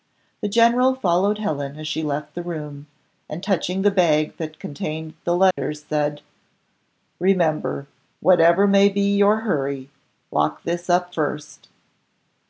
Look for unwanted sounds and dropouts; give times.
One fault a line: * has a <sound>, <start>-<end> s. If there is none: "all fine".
* has a dropout, 5.5-5.6 s